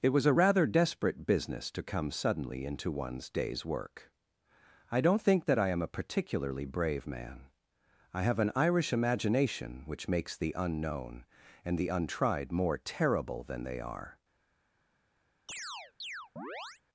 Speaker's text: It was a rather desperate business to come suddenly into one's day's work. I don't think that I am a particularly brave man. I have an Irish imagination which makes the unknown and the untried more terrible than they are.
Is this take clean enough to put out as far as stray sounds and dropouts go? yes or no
no